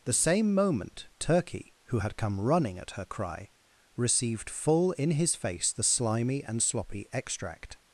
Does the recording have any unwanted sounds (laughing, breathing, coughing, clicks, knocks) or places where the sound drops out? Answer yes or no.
no